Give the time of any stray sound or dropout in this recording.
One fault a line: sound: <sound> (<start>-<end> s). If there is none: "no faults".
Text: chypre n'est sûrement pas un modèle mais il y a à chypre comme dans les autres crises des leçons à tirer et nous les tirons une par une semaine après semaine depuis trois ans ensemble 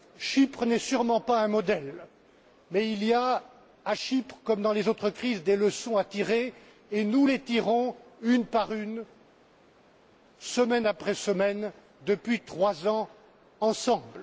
no faults